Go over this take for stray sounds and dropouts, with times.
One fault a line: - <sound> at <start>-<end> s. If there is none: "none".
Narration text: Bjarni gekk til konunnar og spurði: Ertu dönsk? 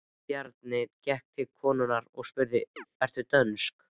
- chirp at 2.8-2.9 s